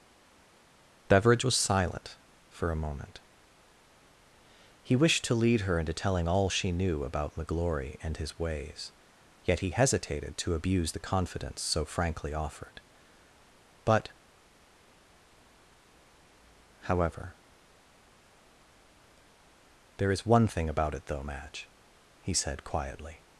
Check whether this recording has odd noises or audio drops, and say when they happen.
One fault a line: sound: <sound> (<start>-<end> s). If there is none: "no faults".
no faults